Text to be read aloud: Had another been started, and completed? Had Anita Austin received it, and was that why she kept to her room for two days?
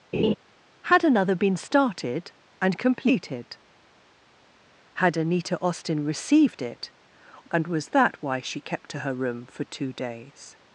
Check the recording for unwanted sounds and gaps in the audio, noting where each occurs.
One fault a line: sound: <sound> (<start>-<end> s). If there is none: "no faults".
sound: laugh (0.1-0.3 s)